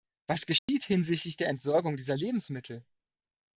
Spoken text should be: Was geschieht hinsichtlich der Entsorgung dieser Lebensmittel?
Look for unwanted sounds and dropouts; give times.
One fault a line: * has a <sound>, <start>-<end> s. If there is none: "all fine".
* has a dropout, 0.6-0.7 s